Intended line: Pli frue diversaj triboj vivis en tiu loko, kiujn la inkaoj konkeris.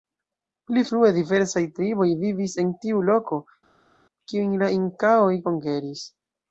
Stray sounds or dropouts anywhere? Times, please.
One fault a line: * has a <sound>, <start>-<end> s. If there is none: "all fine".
all fine